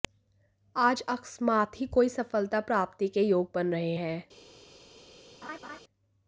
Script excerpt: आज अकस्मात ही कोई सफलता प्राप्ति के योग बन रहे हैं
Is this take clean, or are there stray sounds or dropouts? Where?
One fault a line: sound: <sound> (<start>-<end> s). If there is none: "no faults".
sound: laugh (5.4-5.8 s)